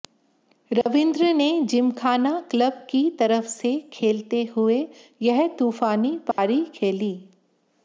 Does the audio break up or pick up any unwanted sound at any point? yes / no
yes